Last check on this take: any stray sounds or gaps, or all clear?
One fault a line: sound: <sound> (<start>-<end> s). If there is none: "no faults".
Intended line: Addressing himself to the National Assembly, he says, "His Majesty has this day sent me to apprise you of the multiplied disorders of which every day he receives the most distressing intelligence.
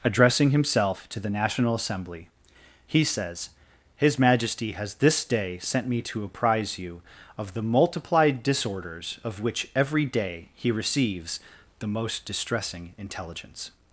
no faults